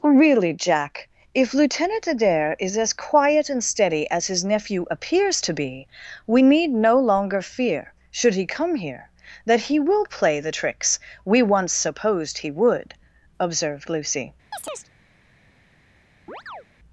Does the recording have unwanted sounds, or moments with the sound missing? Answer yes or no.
yes